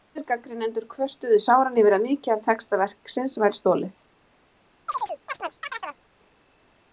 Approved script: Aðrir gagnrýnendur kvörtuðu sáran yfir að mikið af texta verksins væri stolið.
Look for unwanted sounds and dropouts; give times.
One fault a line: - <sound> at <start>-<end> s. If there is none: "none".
- chirp at 4.9-6.0 s